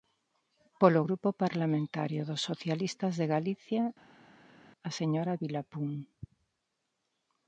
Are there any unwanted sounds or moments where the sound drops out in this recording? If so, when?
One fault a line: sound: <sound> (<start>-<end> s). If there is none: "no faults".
no faults